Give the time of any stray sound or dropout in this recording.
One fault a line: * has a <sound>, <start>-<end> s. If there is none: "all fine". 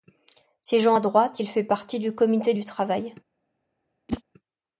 * has a whoosh, 4.1-4.2 s